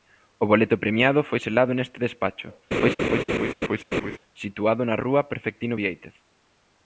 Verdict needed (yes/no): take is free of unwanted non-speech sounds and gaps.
no